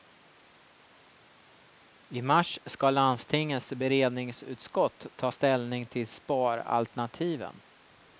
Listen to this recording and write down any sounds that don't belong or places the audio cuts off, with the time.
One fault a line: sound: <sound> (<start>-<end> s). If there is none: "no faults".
no faults